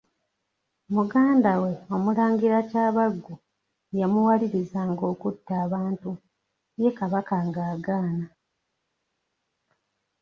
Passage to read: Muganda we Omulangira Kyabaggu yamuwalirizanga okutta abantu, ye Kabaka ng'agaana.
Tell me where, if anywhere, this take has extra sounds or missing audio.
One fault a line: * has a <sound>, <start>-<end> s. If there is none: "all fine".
all fine